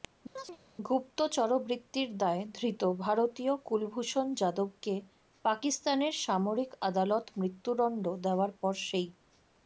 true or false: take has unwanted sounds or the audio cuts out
true